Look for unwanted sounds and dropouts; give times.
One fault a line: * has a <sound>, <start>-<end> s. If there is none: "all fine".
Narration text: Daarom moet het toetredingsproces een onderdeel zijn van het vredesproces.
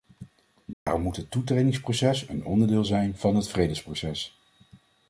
* has a dropout, 0.7-0.9 s